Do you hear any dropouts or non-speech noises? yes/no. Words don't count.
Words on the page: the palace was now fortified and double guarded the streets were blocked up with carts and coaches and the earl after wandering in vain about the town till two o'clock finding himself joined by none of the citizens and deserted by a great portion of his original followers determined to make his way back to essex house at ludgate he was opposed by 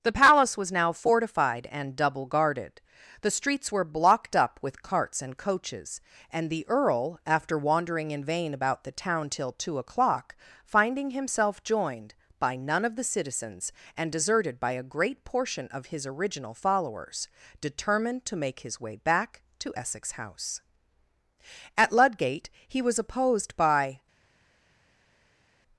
no